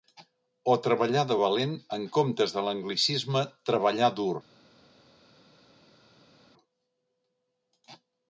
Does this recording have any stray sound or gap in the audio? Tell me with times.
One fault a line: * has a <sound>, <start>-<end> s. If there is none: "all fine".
all fine